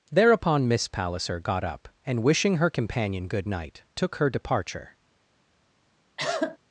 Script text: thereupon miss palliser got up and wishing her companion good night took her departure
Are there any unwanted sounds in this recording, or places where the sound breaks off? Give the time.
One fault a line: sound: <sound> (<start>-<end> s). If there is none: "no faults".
sound: cough (6.2-6.6 s)